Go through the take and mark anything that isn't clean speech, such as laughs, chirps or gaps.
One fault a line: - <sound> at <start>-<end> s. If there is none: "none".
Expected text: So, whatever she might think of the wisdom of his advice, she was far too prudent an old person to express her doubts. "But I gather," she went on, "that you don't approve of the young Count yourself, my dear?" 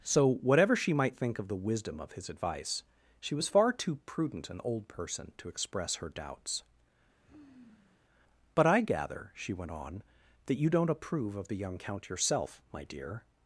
- sigh at 7.2-8.1 s